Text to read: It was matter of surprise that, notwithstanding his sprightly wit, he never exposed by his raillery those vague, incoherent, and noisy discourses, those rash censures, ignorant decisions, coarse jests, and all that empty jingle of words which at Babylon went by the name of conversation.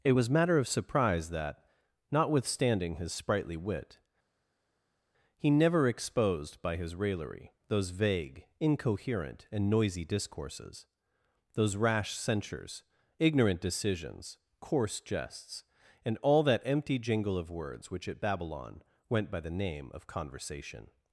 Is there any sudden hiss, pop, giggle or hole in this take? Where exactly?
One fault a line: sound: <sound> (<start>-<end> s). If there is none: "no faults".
no faults